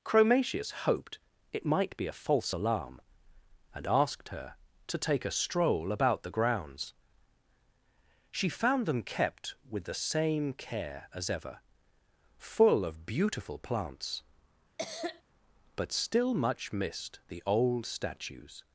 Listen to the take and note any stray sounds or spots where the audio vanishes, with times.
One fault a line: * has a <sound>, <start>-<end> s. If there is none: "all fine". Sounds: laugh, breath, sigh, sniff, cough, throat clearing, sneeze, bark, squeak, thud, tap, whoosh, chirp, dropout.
* has a cough, 14.8-15.2 s